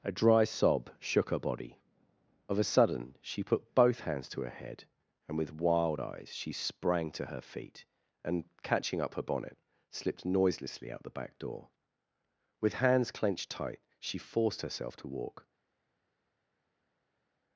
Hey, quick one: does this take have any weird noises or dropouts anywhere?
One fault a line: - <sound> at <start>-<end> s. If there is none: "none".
none